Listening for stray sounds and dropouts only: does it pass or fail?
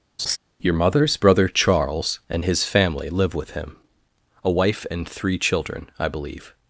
fail